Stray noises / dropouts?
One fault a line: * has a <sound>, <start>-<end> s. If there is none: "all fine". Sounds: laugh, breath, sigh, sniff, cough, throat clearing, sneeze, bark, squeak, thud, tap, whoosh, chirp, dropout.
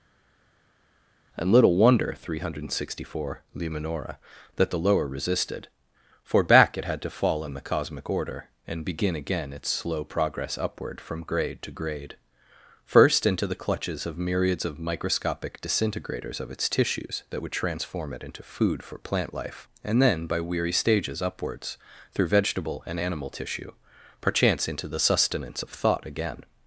all fine